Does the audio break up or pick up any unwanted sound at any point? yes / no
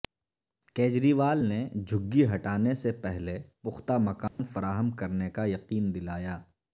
yes